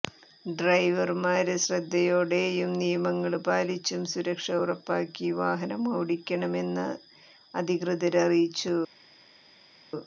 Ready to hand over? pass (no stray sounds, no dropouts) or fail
pass